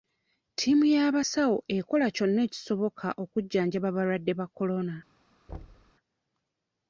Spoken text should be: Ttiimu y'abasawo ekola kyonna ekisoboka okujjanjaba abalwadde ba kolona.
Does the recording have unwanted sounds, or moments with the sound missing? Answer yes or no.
yes